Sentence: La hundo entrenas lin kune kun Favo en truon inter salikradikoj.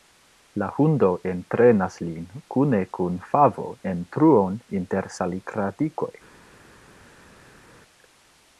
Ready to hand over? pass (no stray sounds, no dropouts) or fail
pass